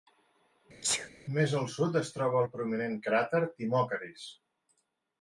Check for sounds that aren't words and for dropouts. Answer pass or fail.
fail